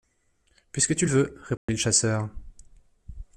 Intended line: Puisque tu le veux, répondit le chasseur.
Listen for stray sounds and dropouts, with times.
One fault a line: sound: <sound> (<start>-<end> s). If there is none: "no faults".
sound: dropout (1.6-1.7 s)